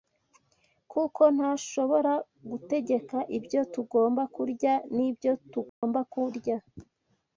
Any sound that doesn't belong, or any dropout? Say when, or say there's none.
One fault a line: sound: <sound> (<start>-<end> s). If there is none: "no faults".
sound: dropout (5.7-5.8 s)